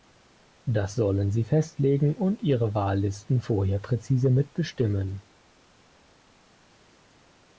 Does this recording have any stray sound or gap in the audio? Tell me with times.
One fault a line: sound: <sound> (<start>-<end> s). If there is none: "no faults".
no faults